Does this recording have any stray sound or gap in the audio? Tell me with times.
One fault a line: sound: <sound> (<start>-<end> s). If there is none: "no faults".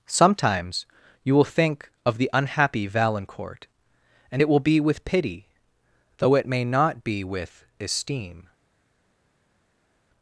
no faults